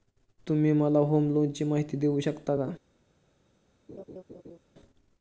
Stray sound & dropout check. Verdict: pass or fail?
fail